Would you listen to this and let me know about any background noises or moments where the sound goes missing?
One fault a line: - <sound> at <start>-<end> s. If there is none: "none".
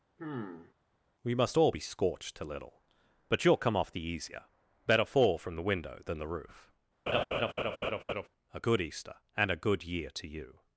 - sigh at 0.2-0.7 s
- laugh at 7.1-8.3 s